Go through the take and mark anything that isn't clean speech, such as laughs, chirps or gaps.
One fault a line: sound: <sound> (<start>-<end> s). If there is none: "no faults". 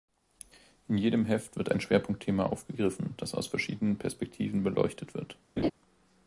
sound: laugh (5.6-5.7 s)